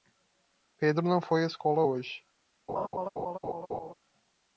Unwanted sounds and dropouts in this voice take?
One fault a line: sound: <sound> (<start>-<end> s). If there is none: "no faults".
sound: laugh (2.7-3.9 s)